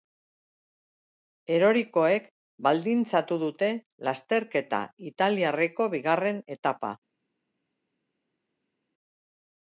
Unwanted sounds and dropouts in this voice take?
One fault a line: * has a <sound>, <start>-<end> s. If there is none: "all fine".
all fine